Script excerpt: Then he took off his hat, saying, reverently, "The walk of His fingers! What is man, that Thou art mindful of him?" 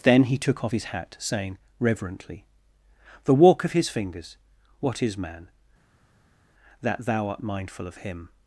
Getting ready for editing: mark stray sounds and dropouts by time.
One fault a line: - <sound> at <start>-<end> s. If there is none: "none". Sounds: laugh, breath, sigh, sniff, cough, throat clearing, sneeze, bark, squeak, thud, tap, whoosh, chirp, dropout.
none